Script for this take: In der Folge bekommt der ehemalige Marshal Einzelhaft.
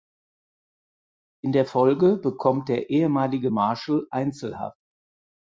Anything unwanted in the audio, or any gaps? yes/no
no